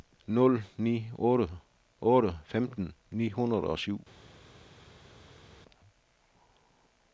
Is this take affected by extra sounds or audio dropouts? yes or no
no